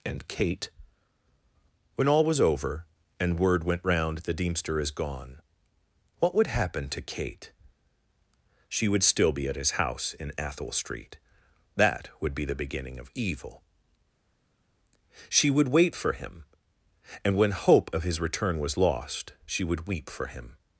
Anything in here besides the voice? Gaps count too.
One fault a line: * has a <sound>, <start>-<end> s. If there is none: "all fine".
all fine